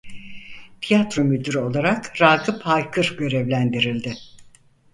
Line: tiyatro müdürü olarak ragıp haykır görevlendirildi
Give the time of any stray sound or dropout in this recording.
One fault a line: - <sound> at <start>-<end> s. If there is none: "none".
none